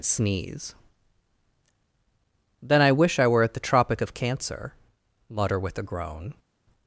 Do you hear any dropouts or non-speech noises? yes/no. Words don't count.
no